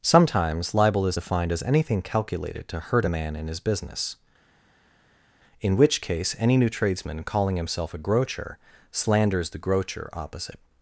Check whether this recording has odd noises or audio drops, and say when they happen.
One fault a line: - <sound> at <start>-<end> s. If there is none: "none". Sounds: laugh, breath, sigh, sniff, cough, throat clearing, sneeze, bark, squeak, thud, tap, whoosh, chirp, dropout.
none